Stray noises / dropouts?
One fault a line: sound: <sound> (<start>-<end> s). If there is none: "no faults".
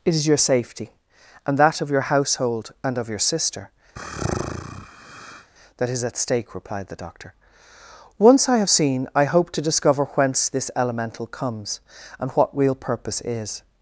sound: sigh (4.0-5.5 s)